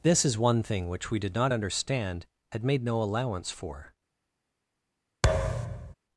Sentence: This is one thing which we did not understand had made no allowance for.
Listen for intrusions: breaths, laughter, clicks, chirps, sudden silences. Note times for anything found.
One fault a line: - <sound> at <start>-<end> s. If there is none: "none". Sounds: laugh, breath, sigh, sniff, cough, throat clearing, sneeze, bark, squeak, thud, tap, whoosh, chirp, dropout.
- thud at 5.2-5.9 s